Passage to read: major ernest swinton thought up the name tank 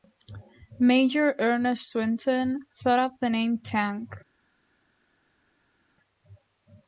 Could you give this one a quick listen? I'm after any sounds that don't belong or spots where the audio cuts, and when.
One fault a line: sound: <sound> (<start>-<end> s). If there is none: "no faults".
no faults